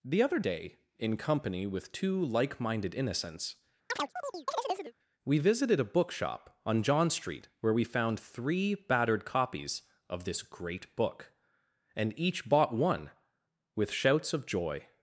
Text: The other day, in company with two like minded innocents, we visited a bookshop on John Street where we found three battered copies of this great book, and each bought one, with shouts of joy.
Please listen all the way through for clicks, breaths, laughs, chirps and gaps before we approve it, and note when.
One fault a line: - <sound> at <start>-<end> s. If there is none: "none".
- chirp at 3.9-4.9 s